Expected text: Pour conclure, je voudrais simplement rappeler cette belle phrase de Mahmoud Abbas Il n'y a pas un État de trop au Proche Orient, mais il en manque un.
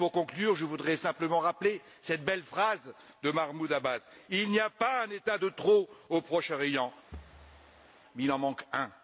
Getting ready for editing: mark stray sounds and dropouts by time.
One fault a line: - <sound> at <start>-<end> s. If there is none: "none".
- thud at 7.1-7.9 s